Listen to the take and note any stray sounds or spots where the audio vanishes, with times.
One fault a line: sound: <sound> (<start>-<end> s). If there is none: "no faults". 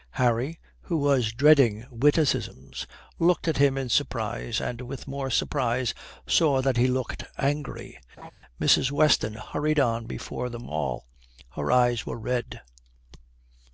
sound: laugh (8.2-8.3 s)